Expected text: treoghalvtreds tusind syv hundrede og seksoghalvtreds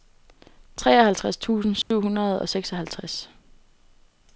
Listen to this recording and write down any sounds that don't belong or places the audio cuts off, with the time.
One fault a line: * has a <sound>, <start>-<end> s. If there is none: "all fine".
* has a dropout, 1.8-1.9 s